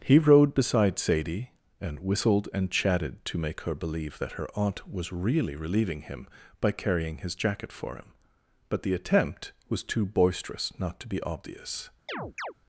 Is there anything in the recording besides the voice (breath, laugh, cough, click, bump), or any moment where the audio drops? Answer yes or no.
yes